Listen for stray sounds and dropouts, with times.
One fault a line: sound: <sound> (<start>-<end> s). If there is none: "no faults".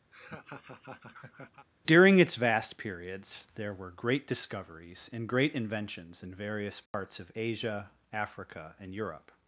sound: laugh (0.1-1.7 s)
sound: dropout (6.9-6.9 s)